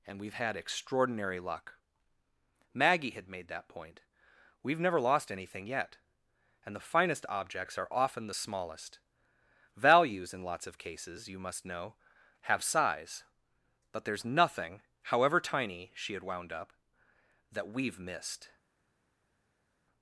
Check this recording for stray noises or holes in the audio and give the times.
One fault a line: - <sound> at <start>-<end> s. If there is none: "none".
none